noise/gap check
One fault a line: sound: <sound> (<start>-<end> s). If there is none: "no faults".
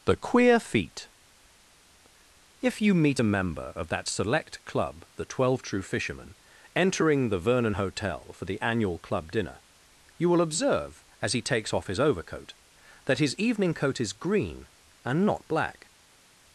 no faults